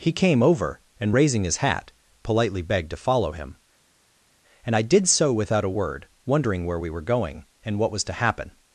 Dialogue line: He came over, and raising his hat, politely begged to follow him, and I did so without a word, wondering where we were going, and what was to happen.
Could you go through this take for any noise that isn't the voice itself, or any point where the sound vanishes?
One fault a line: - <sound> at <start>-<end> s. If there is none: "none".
none